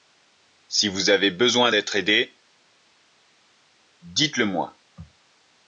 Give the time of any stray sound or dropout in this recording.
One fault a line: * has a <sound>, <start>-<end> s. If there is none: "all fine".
all fine